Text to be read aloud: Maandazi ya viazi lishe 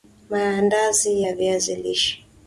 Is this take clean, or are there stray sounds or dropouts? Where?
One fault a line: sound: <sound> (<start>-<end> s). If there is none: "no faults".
no faults